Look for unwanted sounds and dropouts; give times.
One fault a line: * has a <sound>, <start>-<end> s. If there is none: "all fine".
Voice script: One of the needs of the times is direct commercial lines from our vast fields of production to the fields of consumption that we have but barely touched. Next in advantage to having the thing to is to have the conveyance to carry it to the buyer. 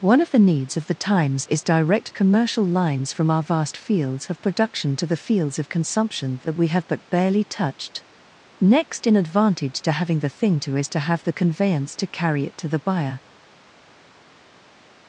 all fine